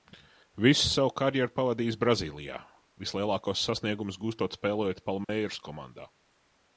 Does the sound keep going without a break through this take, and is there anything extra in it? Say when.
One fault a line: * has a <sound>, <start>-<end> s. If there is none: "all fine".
* has a dropout, 5.2-5.3 s